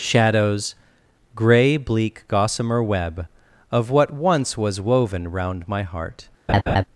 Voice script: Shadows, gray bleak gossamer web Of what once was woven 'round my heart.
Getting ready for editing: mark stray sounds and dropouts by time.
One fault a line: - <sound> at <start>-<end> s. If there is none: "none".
- laugh at 6.5-6.8 s